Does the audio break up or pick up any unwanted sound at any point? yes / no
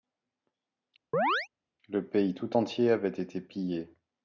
yes